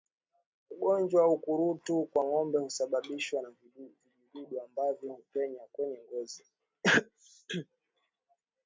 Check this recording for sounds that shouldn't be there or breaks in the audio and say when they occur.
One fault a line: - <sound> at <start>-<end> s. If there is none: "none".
none